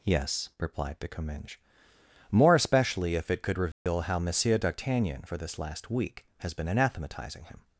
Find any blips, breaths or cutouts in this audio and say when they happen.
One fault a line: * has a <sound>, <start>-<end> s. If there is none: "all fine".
* has a dropout, 3.7-3.9 s